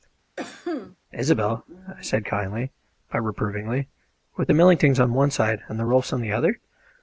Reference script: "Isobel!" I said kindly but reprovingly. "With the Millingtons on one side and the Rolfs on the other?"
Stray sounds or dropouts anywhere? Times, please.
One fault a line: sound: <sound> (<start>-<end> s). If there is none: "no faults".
sound: cough (0.4-1.0 s)